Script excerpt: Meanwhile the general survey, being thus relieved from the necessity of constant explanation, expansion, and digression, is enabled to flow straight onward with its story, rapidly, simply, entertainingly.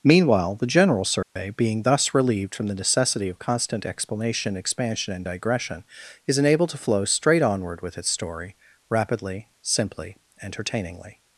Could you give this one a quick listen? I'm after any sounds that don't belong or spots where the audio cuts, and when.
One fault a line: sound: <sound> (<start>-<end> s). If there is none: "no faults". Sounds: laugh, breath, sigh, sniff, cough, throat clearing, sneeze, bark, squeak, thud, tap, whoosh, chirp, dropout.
sound: dropout (1.2-1.4 s)